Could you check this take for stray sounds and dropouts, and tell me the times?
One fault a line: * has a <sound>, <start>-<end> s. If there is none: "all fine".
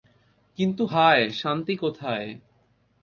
all fine